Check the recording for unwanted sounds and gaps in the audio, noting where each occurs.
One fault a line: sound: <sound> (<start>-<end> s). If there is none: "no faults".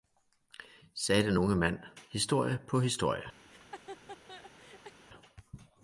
sound: laugh (3.4-5.0 s)